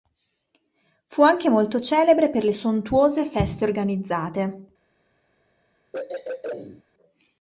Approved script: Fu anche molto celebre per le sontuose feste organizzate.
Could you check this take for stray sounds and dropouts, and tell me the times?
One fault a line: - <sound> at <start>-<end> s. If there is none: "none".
- throat clearing at 5.9-6.8 s